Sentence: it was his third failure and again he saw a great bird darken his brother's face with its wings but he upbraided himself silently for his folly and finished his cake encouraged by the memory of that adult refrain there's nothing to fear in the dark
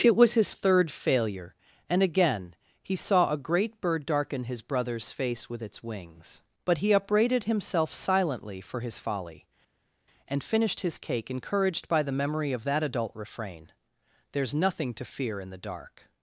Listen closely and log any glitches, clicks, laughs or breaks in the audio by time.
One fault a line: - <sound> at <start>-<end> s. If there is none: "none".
none